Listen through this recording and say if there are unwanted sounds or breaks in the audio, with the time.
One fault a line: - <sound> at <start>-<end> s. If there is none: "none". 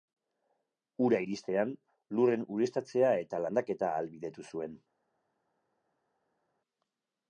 none